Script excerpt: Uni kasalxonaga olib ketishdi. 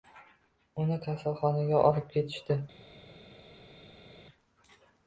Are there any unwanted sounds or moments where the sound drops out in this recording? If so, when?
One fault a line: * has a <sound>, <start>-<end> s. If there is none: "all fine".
all fine